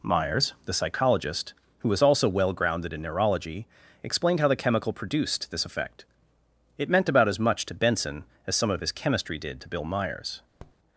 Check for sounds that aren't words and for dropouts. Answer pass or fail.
fail